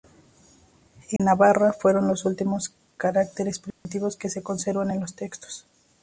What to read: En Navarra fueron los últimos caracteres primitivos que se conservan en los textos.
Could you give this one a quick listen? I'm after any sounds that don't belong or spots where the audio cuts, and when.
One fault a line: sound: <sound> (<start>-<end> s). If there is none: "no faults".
sound: dropout (1.2-1.2 s)
sound: dropout (3.7-3.9 s)